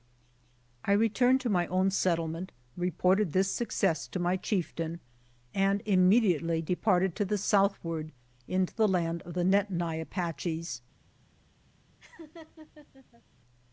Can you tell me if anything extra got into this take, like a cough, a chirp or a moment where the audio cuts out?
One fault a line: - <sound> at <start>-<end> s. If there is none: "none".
- laugh at 12.0-13.2 s